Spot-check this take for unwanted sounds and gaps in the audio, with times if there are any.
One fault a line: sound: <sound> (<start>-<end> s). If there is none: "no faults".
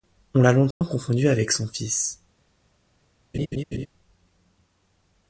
sound: dropout (0.7-0.8 s)
sound: laugh (3.3-3.9 s)